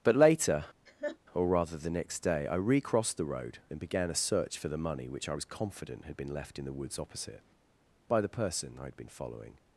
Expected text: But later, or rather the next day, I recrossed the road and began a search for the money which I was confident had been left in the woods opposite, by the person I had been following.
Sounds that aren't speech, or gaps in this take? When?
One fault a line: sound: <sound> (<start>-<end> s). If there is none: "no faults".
sound: laugh (0.9-1.2 s)